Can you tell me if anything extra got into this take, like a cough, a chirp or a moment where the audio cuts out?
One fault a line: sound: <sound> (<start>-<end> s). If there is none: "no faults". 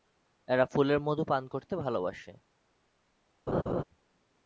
sound: laugh (3.5-3.8 s)